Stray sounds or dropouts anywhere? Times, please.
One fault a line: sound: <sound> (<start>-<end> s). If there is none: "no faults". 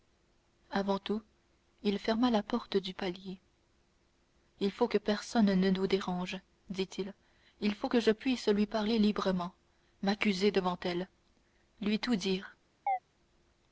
sound: chirp (12.9-13.0 s)